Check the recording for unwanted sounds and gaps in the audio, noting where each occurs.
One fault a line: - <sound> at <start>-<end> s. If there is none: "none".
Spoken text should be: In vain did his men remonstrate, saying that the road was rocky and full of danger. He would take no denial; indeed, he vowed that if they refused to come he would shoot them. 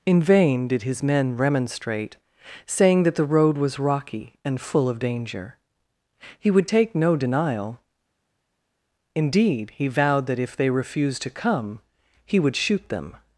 none